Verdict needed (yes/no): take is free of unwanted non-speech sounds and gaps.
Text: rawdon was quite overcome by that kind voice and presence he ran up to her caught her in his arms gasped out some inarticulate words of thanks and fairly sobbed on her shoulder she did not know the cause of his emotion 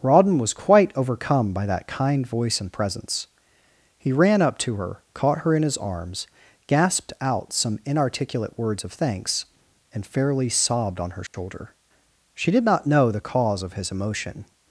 no